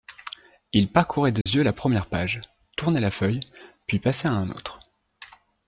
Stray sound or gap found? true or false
true